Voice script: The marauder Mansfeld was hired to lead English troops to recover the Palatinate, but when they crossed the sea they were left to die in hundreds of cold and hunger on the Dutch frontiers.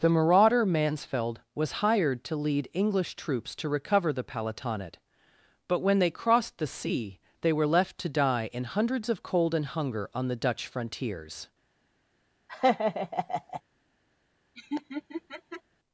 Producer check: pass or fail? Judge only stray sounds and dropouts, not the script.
fail